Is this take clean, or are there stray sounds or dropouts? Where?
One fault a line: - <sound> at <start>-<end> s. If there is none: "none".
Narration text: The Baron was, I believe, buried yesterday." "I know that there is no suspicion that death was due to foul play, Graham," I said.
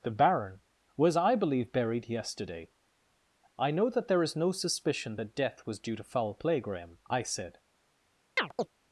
- chirp at 8.4-8.7 s